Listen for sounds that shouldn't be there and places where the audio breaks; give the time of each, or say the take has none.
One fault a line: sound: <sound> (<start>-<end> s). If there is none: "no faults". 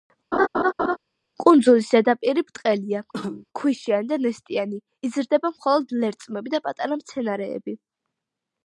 sound: laugh (0.3-1.0 s)
sound: cough (3.1-3.5 s)